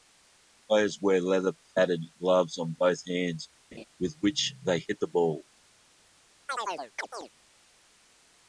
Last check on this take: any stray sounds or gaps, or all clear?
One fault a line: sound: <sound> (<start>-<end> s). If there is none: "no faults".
sound: laugh (3.7-3.8 s)
sound: chirp (6.5-7.3 s)